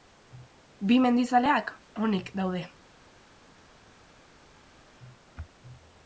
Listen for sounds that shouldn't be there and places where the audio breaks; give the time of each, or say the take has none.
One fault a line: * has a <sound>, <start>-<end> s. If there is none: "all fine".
all fine